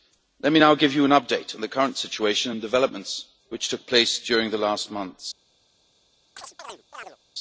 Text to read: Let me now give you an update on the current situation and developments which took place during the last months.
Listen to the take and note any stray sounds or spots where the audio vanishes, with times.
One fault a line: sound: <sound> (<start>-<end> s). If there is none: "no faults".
sound: chirp (6.4-7.2 s)